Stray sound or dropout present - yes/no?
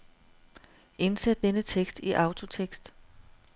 no